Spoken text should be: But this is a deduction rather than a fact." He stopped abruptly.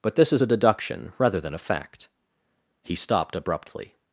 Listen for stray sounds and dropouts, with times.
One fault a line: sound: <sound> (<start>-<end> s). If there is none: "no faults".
no faults